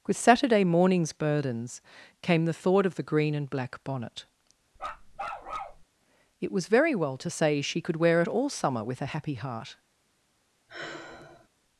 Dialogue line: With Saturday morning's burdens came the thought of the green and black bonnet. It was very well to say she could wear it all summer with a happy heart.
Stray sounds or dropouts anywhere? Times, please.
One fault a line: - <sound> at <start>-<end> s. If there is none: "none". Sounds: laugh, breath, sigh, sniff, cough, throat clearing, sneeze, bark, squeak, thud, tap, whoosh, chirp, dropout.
- bark at 4.8-5.8 s
- sigh at 10.7-11.5 s